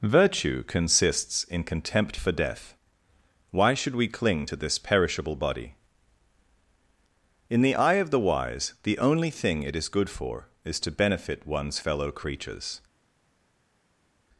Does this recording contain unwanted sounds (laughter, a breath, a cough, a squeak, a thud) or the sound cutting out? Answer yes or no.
no